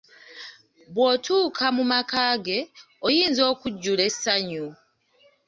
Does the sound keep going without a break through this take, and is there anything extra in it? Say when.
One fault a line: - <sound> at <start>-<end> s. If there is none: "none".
none